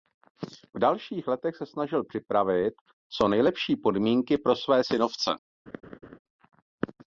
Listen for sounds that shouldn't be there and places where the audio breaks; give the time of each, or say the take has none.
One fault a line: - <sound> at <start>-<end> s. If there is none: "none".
- laugh at 5.7-6.2 s